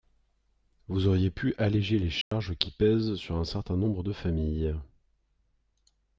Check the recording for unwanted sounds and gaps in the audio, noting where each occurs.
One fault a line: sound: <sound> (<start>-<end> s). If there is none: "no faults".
sound: dropout (2.2-2.3 s)